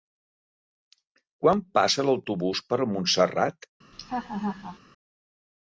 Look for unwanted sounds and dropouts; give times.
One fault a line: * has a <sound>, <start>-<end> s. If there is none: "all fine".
* has a laugh, 3.9-4.8 s